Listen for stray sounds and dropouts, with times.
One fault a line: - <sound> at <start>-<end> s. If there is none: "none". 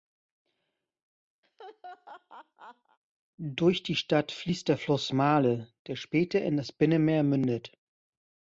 - laugh at 1.4-3.0 s